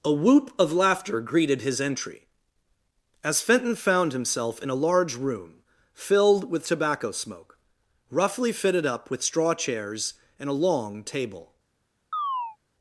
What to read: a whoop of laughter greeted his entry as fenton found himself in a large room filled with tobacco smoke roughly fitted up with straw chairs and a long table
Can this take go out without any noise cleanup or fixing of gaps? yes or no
no